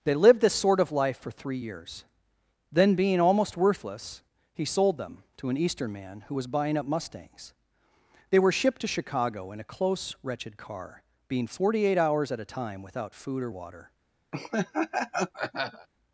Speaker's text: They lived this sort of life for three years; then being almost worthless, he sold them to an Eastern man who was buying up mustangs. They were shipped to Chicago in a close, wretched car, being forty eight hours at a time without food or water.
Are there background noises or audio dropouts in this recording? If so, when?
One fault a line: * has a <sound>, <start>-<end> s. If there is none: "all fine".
* has a laugh, 14.3-15.9 s